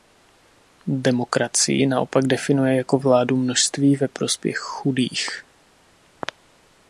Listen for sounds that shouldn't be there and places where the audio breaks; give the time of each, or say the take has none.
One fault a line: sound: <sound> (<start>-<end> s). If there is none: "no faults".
no faults